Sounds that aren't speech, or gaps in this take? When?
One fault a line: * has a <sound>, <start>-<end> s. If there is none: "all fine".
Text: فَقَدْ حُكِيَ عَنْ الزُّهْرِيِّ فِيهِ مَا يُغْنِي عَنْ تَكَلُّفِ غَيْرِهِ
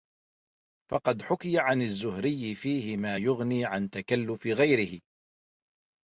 all fine